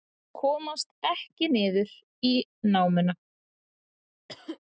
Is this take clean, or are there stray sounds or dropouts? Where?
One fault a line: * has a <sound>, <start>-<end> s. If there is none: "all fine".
* has a cough, 4.3-4.6 s